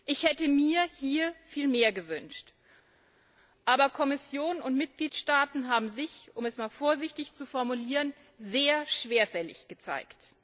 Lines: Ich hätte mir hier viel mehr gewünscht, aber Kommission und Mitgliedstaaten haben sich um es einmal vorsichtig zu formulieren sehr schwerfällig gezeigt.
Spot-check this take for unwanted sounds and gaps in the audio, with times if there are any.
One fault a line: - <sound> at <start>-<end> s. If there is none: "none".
none